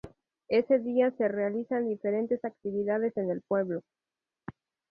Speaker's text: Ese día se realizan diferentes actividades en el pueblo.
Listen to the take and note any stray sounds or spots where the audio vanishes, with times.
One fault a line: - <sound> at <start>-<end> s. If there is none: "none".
none